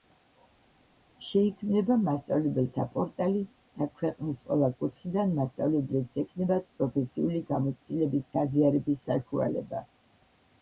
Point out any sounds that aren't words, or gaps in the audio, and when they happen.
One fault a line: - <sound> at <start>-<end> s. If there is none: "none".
none